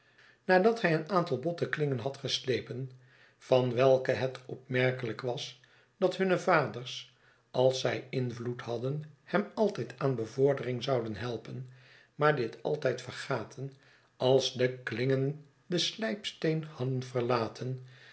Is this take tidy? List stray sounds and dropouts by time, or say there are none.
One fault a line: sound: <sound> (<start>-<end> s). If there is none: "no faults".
no faults